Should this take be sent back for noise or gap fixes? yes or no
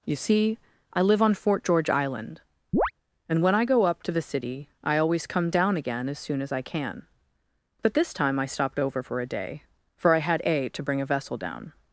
yes